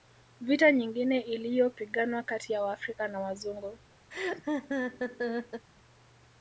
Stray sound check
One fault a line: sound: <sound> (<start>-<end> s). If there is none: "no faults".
sound: laugh (4.1-5.7 s)